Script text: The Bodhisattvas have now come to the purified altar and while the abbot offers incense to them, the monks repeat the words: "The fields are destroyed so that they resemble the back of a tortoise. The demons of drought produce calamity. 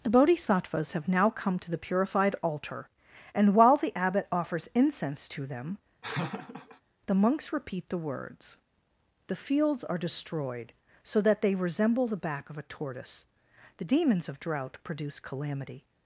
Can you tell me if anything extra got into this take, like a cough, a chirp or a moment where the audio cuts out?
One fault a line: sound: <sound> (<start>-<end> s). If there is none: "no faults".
sound: laugh (6.0-6.8 s)